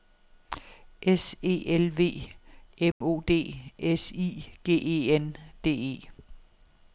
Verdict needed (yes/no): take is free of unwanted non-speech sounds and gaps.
no